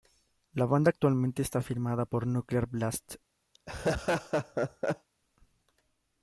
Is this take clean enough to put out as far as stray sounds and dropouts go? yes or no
no